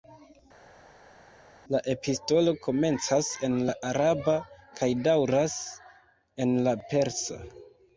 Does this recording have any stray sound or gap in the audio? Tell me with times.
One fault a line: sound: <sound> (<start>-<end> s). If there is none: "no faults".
no faults